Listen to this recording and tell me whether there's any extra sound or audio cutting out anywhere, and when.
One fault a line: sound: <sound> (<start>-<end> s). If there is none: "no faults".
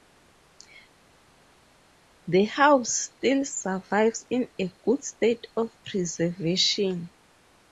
no faults